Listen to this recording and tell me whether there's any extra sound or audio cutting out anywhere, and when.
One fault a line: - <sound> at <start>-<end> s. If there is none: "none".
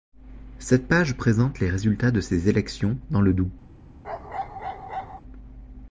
- bark at 4.0-5.2 s